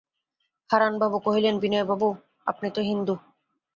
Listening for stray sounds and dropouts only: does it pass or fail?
pass